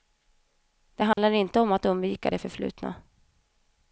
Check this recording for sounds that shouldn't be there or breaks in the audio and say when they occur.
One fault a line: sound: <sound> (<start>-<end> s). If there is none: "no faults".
sound: dropout (1.1-1.2 s)